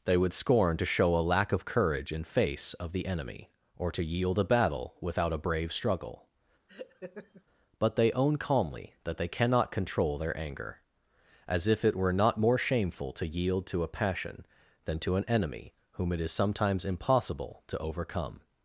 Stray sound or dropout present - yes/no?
yes